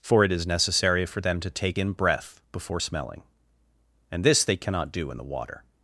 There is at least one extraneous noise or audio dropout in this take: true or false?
false